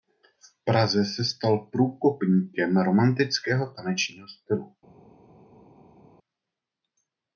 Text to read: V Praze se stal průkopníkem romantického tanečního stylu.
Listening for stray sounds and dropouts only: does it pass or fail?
pass